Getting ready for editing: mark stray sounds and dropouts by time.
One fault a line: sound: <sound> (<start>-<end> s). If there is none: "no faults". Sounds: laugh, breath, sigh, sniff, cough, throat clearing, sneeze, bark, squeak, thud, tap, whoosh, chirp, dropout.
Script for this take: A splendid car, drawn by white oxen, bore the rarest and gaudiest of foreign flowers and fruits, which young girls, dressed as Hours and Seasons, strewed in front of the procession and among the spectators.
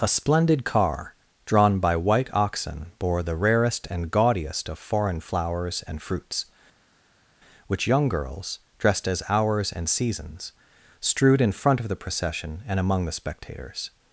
no faults